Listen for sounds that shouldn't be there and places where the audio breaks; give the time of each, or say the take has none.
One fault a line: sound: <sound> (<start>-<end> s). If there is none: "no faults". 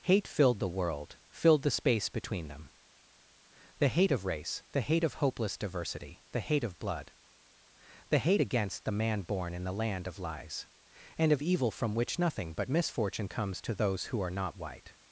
no faults